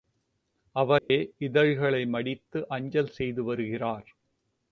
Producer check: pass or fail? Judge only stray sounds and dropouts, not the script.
fail